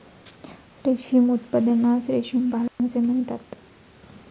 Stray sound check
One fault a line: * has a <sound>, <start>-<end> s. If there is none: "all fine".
* has a dropout, 2.7-2.8 s